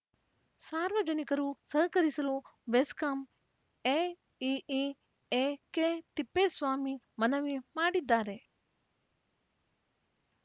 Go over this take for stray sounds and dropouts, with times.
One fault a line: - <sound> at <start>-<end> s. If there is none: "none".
none